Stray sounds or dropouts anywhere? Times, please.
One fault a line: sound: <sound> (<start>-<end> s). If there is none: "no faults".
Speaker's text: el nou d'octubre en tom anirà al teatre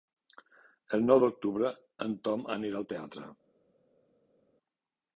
no faults